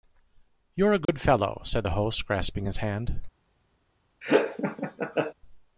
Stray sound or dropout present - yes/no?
yes